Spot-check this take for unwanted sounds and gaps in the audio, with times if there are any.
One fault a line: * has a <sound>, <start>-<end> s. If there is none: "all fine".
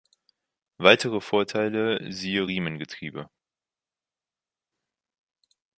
all fine